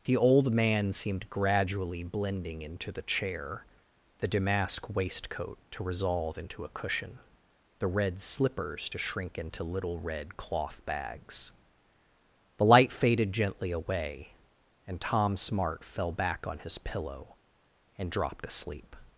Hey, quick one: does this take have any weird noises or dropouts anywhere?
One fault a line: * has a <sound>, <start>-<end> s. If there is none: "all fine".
all fine